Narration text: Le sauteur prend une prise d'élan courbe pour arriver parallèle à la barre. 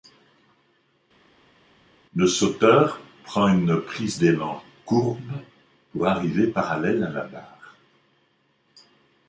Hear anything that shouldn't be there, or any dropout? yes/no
no